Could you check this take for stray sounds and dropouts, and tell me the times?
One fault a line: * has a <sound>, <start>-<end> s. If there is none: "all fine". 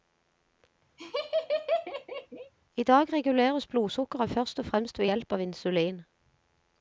* has a laugh, 1.0-2.5 s